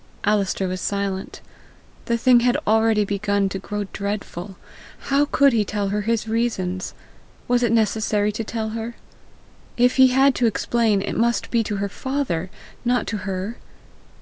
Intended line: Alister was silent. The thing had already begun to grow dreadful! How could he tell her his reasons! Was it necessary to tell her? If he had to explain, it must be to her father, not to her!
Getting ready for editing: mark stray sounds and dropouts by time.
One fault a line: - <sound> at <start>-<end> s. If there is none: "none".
none